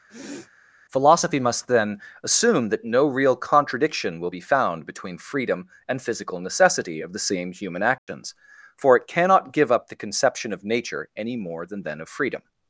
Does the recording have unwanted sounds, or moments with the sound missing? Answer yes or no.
yes